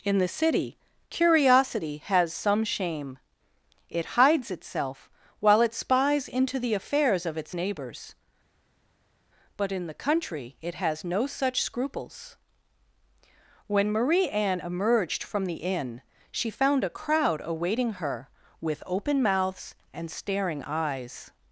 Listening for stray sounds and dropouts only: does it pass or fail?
pass